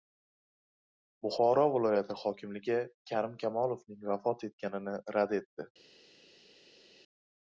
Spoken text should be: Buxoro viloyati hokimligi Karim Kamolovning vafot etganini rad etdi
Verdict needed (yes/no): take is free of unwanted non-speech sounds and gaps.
yes